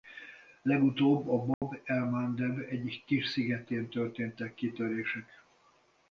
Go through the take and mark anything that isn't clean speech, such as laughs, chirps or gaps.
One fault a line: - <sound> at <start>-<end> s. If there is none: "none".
- dropout at 1.5-1.6 s